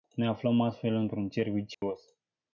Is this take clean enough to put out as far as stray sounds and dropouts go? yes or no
no